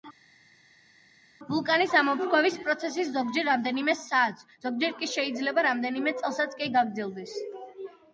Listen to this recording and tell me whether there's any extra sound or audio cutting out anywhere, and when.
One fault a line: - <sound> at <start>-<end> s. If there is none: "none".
none